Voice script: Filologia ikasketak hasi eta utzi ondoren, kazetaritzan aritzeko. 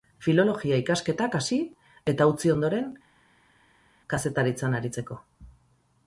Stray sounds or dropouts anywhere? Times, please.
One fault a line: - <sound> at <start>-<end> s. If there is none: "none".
none